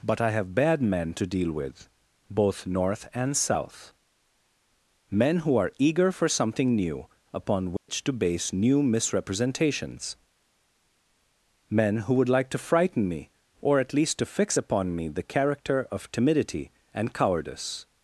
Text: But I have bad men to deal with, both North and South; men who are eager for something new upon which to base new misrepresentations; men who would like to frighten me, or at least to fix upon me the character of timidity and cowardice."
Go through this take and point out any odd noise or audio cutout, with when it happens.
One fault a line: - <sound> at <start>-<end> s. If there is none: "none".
- dropout at 7.8-7.9 s